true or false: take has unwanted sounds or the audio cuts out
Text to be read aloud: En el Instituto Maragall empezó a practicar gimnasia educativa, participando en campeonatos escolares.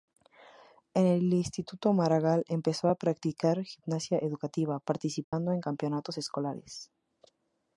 true